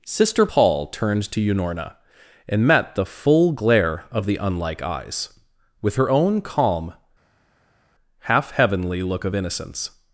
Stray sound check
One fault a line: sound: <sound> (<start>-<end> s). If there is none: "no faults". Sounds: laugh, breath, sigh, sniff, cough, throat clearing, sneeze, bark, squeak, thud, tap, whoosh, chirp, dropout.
no faults